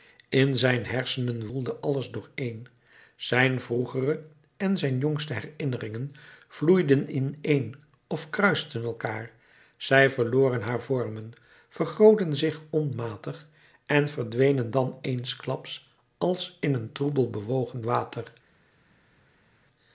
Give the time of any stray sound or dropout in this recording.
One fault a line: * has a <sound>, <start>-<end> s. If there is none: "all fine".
all fine